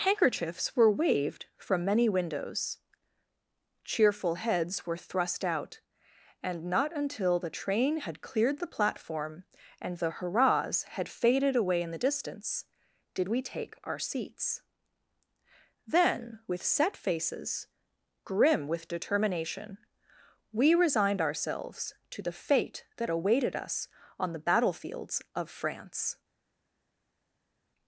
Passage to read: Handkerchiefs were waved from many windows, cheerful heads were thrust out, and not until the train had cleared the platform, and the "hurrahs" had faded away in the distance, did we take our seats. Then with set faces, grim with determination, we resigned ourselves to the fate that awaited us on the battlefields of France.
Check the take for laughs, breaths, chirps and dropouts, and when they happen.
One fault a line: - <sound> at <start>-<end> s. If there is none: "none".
none